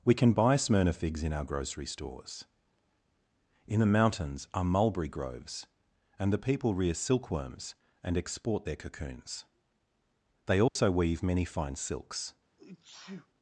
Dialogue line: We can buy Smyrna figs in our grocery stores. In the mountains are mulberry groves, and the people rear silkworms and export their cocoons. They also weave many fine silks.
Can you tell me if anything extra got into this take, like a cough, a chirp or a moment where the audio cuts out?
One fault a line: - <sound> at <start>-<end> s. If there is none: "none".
- dropout at 10.7-10.8 s
- sneeze at 12.6-13.3 s